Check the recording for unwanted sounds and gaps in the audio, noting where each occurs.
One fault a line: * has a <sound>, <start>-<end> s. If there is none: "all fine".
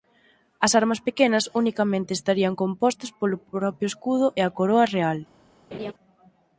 * has a laugh, 5.7-5.9 s